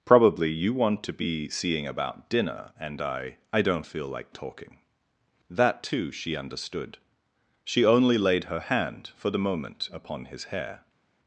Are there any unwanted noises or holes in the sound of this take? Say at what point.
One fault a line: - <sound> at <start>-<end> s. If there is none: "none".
none